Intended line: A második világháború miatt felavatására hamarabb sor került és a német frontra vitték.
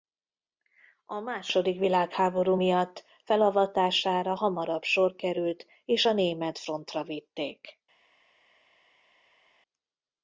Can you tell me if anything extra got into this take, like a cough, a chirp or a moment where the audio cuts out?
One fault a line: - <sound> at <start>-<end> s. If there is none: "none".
none